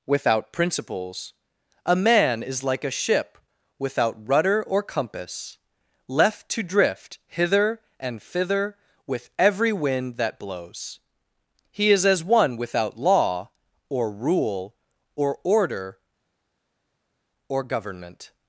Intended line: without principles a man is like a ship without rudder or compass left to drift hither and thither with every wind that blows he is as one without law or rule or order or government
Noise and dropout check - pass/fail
pass